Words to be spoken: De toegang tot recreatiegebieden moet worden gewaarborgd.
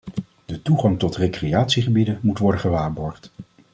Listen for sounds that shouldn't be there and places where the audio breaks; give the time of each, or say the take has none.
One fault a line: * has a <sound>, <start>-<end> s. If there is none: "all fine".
all fine